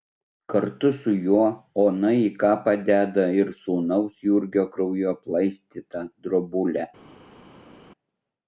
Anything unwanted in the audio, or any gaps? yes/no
no